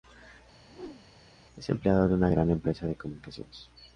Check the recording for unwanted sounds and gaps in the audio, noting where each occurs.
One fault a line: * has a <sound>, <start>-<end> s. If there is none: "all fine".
* has a whoosh, 0.7-1.2 s